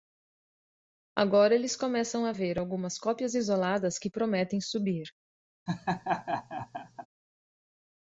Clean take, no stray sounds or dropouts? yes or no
no